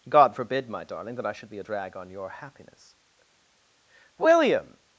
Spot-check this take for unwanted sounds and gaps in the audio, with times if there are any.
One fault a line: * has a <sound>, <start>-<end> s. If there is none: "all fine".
all fine